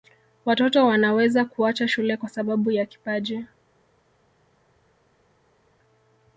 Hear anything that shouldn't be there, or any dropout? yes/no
no